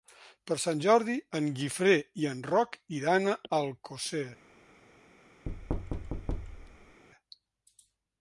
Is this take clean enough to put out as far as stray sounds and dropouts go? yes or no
no